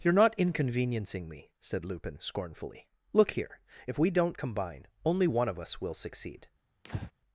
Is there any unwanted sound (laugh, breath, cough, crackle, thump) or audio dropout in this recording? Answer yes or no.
yes